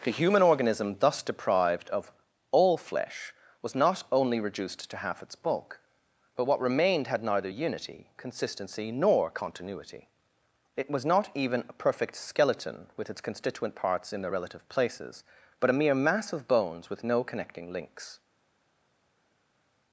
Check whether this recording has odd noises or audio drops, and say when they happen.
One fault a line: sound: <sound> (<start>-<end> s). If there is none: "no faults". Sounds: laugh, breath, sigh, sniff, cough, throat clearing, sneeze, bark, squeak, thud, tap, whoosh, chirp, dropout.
no faults